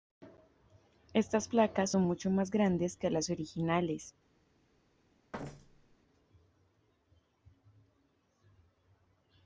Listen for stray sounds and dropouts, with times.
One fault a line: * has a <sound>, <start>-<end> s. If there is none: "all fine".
* has a thud, 5.3-6.0 s